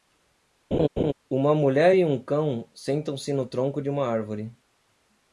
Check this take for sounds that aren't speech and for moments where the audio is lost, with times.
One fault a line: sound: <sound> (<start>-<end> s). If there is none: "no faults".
sound: laugh (0.7-1.1 s)